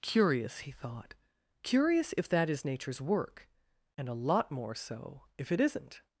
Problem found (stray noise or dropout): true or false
false